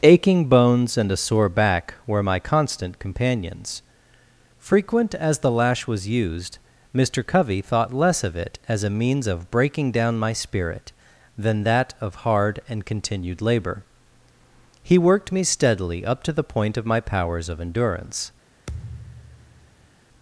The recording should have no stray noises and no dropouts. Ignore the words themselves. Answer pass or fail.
fail